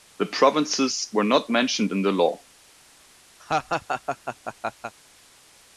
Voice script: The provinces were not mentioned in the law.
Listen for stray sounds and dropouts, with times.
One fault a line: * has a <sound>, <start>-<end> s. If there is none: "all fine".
* has a laugh, 3.4-4.9 s